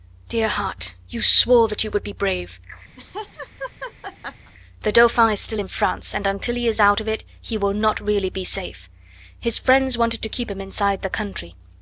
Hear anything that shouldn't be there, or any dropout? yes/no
yes